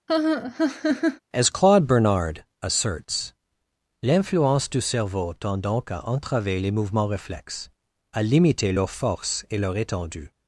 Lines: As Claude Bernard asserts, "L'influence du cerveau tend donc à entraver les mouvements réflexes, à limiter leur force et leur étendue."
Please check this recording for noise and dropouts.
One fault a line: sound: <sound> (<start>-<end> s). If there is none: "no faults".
sound: laugh (0.1-1.2 s)